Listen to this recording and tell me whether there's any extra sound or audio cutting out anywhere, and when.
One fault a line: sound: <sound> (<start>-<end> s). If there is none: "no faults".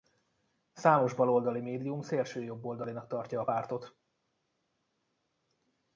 no faults